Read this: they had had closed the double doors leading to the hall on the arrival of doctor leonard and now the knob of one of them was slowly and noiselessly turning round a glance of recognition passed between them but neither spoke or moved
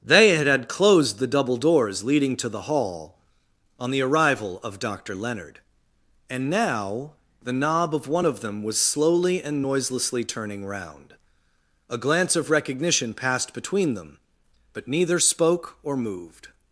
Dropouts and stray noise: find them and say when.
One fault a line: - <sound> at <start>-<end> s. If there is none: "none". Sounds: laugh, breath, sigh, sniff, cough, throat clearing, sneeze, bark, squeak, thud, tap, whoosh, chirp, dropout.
none